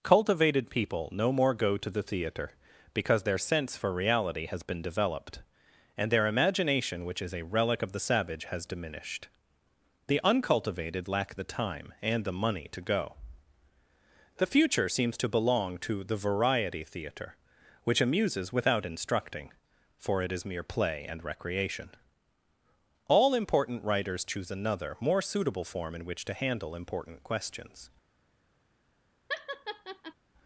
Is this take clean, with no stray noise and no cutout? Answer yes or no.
no